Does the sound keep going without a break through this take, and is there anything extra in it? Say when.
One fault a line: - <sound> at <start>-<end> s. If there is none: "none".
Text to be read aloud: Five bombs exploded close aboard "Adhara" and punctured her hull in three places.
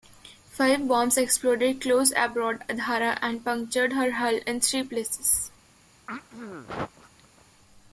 - throat clearing at 6.1-7.4 s